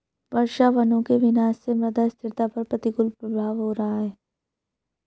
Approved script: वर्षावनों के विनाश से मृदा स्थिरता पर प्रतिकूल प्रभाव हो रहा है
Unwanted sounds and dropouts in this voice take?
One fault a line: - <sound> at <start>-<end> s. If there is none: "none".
none